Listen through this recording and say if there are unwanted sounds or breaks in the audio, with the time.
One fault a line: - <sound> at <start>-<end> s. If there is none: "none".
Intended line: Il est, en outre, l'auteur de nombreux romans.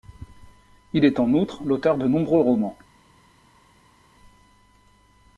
none